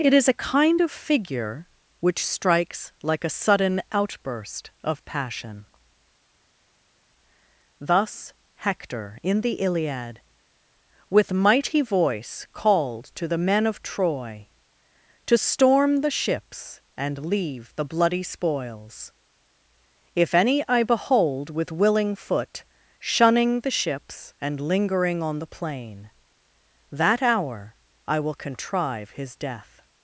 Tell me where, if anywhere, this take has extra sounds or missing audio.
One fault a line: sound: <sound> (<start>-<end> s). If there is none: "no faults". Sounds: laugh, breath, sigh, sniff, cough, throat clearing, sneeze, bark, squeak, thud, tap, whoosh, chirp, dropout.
no faults